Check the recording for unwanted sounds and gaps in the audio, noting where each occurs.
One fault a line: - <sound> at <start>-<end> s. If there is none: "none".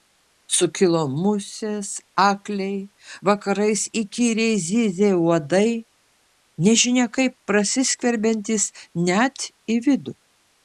none